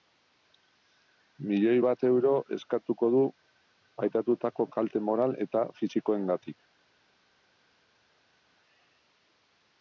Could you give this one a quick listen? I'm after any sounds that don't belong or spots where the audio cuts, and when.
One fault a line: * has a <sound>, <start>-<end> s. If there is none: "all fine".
all fine